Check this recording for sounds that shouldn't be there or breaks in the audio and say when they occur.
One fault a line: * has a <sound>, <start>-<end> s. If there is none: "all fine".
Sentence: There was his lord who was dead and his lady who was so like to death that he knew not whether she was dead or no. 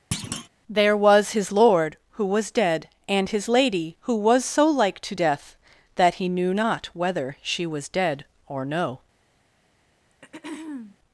* has a thud, 0.1-0.5 s
* has a throat clearing, 10.1-11.0 s